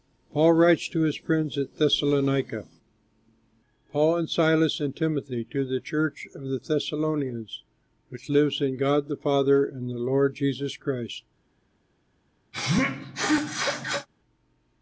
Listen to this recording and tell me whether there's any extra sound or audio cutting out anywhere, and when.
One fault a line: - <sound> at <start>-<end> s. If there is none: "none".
- sneeze at 12.5-14.1 s